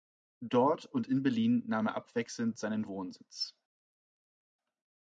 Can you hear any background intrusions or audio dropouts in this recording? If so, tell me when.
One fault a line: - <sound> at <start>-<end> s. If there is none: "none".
none